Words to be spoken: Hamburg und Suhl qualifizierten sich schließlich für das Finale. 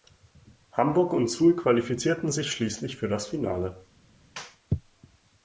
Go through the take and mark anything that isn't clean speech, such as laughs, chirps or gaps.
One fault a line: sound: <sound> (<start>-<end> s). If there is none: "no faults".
no faults